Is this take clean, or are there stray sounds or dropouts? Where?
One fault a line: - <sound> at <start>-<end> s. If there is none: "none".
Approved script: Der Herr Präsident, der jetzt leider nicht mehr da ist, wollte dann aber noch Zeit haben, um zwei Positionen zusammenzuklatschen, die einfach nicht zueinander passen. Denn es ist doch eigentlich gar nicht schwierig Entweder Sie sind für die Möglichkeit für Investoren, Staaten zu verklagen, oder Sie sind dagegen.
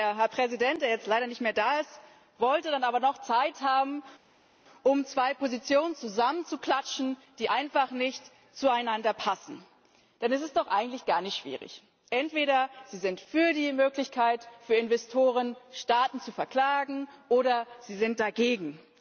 none